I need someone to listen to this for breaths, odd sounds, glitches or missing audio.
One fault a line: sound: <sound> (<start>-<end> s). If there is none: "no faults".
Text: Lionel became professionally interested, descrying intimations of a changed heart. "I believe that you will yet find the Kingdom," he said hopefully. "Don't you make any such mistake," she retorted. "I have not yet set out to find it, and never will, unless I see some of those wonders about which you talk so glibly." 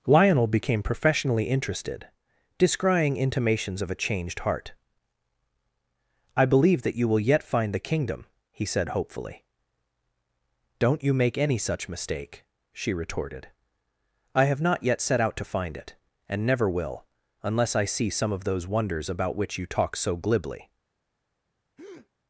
sound: breath (21.8-22.1 s)